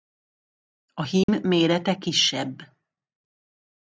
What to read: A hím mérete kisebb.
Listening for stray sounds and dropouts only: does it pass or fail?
fail